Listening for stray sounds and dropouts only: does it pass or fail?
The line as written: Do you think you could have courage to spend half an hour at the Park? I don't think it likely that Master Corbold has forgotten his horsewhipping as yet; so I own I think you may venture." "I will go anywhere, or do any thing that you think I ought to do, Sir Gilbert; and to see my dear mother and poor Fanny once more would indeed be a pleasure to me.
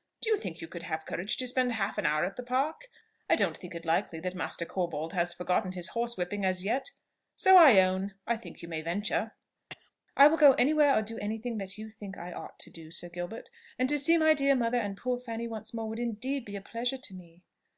fail